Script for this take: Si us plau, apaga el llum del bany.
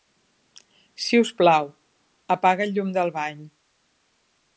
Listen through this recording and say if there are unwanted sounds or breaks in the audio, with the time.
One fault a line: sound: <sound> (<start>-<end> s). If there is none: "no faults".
no faults